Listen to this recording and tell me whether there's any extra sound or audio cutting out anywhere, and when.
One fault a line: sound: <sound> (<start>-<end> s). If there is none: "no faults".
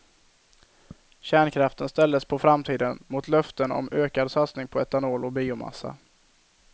no faults